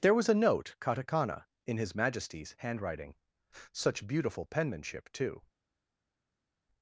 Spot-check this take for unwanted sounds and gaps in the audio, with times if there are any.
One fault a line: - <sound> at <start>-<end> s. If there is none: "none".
none